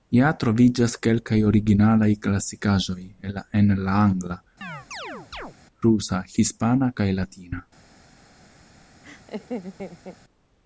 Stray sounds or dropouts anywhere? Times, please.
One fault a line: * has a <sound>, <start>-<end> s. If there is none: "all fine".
* has a chirp, 4.6-5.5 s
* has a laugh, 9.0-10.2 s